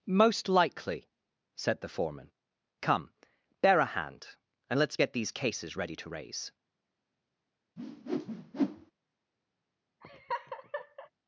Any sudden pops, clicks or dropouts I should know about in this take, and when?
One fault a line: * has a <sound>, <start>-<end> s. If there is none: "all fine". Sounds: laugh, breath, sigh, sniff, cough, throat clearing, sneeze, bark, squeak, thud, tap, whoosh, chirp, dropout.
* has a whoosh, 7.8-8.9 s
* has a laugh, 10.0-11.1 s